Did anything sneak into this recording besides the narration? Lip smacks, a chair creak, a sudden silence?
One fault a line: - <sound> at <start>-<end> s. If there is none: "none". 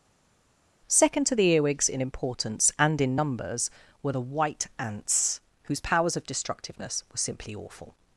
none